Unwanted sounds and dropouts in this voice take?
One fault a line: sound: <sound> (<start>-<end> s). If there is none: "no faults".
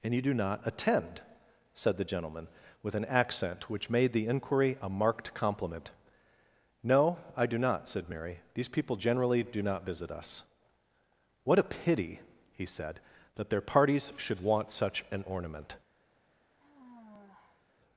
sound: sigh (16.6-17.7 s)